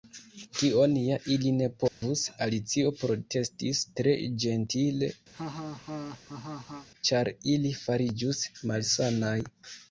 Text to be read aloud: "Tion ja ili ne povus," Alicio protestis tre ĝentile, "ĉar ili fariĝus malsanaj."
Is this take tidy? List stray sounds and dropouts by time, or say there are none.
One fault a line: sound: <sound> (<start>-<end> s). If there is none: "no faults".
sound: dropout (1.9-2.0 s)
sound: laugh (5.3-6.9 s)